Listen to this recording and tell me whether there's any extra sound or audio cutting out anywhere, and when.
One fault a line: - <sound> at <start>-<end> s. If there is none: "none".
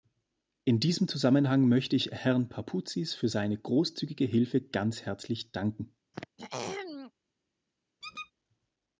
- throat clearing at 6.1-7.1 s
- squeak at 8.0-8.3 s